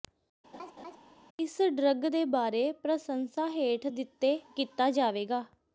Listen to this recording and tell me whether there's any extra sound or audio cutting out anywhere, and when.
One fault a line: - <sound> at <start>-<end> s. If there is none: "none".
- laugh at 0.5-1.0 s